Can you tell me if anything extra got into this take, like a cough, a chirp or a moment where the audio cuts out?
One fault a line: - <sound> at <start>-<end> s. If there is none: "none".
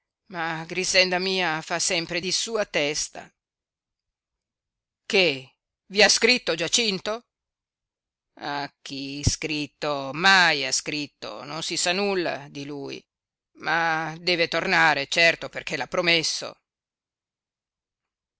none